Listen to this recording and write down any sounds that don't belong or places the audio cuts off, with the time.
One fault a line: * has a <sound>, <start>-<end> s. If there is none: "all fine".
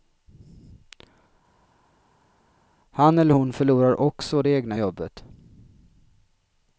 all fine